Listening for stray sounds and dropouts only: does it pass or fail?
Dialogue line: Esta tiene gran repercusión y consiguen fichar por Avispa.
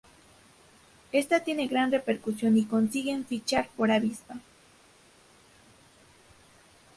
pass